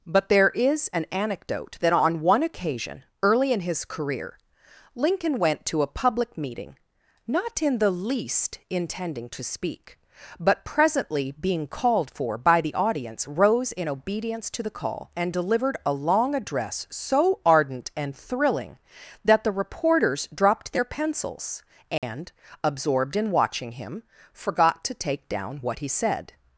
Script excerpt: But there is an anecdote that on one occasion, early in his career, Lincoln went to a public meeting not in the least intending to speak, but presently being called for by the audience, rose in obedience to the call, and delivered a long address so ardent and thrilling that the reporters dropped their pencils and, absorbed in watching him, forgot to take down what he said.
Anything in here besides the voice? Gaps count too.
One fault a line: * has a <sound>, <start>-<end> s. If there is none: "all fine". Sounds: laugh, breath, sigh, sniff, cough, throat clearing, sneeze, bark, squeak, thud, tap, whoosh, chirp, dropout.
* has a dropout, 22.0-22.0 s